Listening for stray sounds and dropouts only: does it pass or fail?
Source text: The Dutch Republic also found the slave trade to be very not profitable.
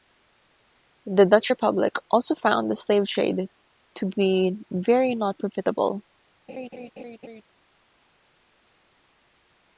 fail